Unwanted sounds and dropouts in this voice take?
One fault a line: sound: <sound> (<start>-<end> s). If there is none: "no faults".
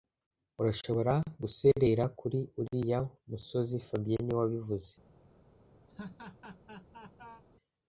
sound: laugh (5.9-7.4 s)